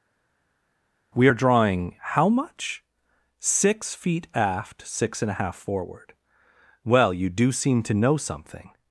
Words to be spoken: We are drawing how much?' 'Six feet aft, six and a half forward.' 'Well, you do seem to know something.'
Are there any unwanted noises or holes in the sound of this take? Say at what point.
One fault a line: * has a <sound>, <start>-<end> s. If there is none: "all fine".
all fine